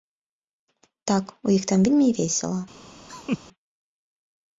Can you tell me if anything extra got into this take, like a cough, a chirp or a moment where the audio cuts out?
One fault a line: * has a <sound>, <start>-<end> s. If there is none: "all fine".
* has a laugh, 3.1-3.4 s